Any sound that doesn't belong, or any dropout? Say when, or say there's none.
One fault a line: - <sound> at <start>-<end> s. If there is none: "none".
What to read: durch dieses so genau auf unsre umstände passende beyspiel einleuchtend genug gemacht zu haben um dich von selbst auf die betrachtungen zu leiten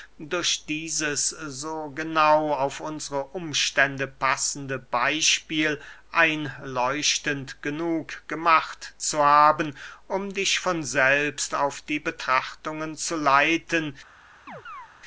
- chirp at 14.5-14.9 s